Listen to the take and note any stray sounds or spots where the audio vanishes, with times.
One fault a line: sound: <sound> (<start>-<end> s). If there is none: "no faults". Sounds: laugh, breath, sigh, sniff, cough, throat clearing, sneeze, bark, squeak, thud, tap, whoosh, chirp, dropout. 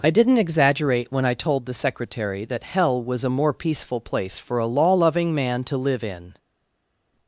no faults